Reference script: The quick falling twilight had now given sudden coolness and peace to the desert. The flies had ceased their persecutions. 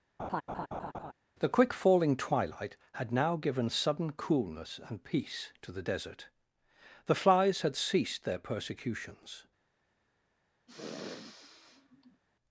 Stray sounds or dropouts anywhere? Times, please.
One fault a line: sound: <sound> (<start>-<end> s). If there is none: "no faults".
sound: laugh (0.2-1.1 s)
sound: sniff (10.7-12.2 s)